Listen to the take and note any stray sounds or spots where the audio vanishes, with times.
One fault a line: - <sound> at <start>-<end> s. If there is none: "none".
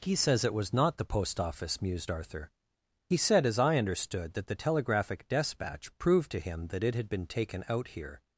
none